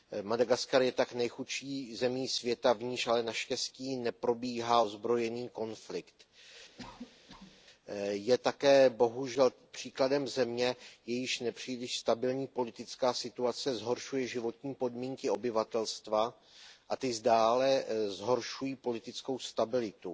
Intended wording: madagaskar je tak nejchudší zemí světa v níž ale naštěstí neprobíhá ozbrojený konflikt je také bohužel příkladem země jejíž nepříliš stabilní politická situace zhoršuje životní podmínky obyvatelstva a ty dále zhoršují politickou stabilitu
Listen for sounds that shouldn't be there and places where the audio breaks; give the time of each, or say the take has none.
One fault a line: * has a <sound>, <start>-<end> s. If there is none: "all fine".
* has a cough, 6.8-7.6 s